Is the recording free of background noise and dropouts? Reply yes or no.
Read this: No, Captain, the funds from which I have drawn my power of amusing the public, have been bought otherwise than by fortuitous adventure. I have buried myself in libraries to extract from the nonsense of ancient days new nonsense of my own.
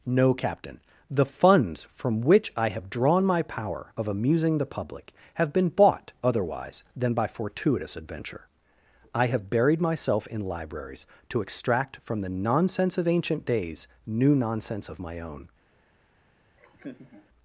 no